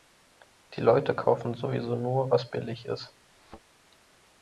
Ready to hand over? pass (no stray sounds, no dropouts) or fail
fail